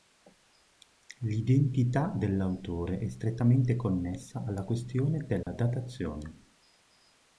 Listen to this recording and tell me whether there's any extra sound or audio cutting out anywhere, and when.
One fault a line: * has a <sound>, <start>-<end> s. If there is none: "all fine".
* has a dropout, 5.4-5.5 s